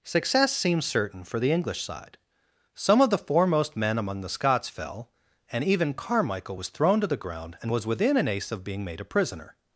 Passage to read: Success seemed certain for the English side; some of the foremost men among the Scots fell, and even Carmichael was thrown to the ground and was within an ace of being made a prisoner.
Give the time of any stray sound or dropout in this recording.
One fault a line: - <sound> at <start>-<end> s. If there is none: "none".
none